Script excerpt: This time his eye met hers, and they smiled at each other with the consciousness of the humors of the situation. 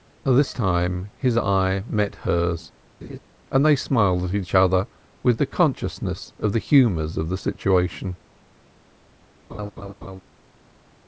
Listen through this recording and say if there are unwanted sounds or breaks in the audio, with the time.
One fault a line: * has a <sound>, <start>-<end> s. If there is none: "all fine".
* has a laugh, 3.0-3.2 s
* has a laugh, 9.5-10.2 s